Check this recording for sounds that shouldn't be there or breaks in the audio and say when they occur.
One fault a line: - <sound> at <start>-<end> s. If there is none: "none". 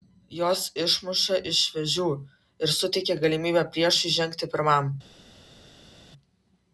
none